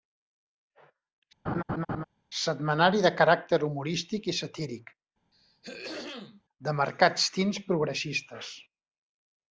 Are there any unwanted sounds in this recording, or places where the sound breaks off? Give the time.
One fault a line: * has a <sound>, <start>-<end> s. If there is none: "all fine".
* has a laugh, 1.5-2.0 s
* has a throat clearing, 5.3-6.4 s